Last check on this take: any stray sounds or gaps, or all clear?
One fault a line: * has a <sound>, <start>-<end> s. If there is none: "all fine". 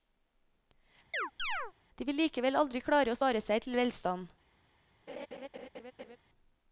* has a chirp, 1.1-1.7 s
* has a laugh, 5.1-6.2 s